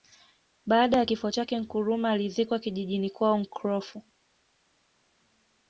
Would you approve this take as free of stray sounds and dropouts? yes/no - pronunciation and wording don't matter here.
yes